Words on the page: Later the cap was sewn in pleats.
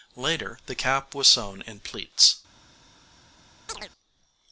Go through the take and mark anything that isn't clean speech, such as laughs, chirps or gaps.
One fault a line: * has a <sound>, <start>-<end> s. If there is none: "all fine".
* has a chirp, 3.7-3.9 s